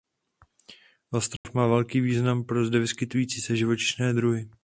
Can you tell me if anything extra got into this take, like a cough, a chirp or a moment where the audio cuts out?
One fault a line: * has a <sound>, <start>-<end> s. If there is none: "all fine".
* has a dropout, 1.4-1.4 s